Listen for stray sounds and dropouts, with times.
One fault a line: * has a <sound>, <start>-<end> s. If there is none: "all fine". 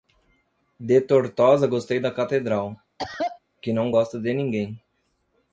* has a cough, 3.0-3.4 s